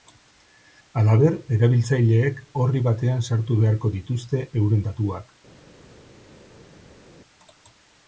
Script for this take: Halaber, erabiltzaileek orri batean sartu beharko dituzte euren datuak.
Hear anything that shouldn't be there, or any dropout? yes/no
no